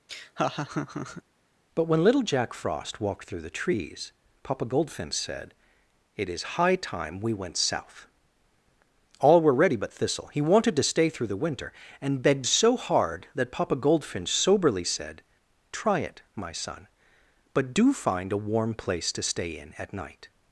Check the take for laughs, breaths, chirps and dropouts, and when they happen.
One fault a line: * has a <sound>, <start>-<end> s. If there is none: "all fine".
* has a laugh, 0.1-1.2 s